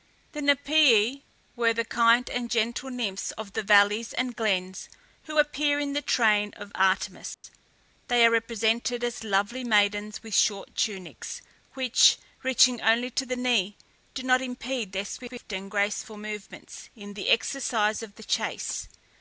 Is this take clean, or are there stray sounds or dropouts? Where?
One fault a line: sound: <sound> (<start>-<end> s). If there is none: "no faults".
sound: dropout (7.3-7.4 s)